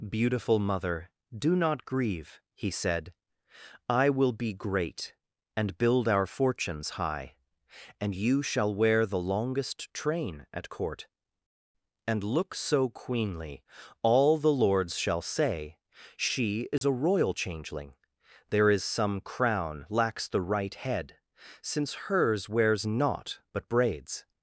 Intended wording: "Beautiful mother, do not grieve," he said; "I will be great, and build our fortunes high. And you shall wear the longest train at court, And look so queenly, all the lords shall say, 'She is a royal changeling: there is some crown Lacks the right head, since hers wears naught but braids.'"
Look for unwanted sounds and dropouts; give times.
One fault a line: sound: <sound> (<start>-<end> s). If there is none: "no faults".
sound: dropout (16.8-16.8 s)